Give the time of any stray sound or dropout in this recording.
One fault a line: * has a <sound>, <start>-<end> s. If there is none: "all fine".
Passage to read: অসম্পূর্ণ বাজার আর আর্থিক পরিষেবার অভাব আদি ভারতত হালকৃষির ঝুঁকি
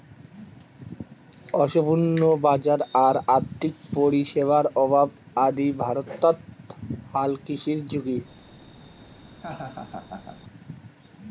* has a laugh, 9.3-10.4 s